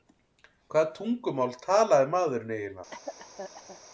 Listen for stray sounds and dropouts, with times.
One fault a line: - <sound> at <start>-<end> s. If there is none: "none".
- cough at 2.9-3.8 s